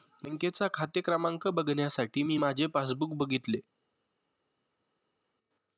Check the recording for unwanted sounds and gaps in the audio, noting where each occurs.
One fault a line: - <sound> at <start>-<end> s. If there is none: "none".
none